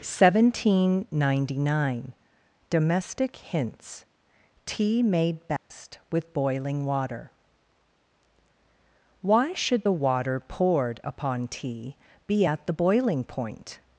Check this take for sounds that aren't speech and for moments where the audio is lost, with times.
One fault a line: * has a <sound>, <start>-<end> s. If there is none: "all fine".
* has a dropout, 5.6-5.7 s